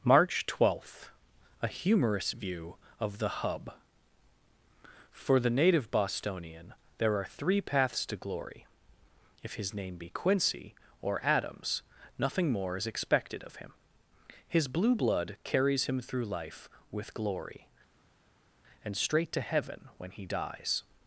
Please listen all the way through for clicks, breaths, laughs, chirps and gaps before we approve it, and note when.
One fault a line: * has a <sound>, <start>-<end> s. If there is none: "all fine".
all fine